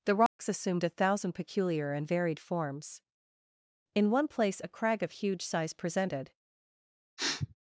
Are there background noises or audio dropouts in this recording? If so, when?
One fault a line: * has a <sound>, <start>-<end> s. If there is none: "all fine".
* has a dropout, 0.3-0.4 s
* has a sniff, 7.2-7.6 s